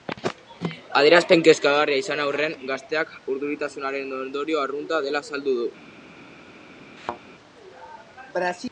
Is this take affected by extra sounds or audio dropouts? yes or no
yes